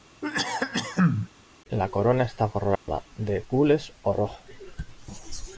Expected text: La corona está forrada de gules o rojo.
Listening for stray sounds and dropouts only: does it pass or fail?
fail